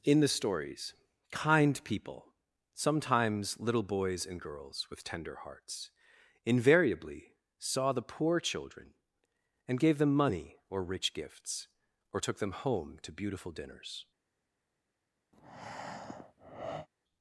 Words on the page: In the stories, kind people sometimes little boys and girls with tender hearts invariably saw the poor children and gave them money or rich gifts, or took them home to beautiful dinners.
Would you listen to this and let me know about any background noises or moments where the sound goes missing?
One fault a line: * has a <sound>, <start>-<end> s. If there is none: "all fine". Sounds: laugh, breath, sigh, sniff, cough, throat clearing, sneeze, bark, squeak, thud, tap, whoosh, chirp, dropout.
* has a breath, 15.3-16.9 s